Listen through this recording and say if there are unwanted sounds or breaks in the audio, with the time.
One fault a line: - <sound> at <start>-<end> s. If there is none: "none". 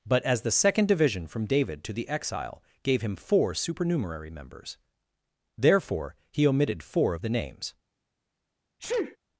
- sneeze at 8.8-9.2 s